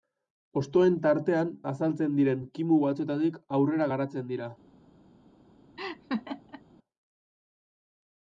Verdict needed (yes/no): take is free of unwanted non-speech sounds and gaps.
no